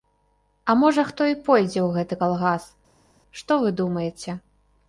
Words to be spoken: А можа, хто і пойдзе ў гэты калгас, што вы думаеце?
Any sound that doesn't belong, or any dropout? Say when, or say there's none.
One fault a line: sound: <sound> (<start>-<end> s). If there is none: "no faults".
no faults